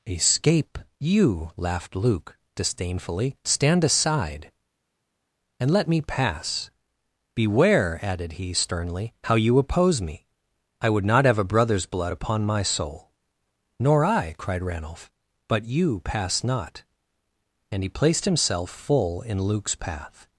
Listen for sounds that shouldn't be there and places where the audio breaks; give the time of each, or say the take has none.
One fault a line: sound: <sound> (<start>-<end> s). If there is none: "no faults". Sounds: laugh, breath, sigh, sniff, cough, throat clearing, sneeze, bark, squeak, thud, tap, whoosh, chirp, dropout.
no faults